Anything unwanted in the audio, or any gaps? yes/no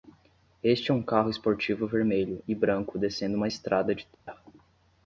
yes